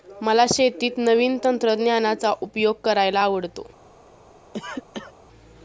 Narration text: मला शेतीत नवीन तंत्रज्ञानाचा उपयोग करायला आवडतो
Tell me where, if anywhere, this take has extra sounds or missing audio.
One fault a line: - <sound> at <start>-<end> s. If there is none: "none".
- cough at 4.5-5.1 s